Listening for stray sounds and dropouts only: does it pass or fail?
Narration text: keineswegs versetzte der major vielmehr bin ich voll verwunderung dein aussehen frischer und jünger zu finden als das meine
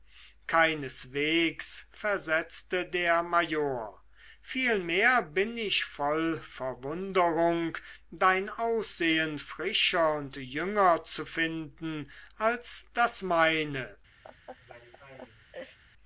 fail